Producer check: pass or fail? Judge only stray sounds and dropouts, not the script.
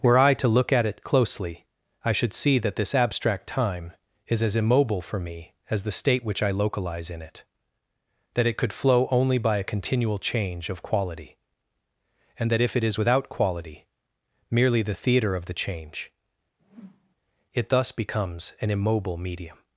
fail